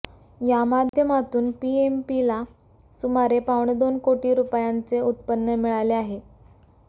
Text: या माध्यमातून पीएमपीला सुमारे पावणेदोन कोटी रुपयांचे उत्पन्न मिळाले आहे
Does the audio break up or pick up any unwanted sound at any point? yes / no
yes